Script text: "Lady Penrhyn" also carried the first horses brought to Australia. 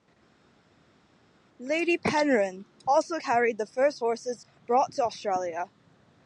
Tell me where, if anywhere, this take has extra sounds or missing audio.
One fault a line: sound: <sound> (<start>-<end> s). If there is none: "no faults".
no faults